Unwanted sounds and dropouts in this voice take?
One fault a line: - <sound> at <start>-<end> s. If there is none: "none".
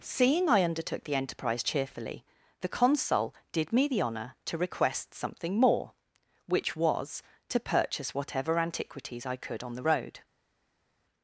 none